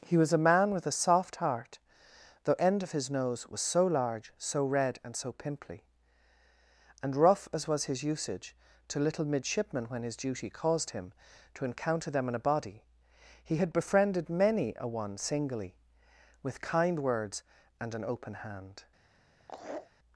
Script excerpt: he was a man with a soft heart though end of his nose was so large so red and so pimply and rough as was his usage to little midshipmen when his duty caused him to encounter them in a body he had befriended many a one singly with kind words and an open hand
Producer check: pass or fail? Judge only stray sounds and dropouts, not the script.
fail